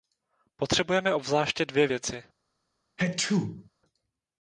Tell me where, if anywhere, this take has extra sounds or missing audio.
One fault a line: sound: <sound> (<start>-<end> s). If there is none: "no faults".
sound: sneeze (3.0-3.7 s)